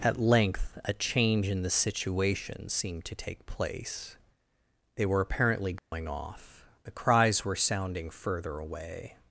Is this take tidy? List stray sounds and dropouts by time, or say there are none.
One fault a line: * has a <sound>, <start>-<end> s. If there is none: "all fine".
* has a dropout, 5.8-5.9 s